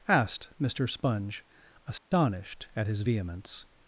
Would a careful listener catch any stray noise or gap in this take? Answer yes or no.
yes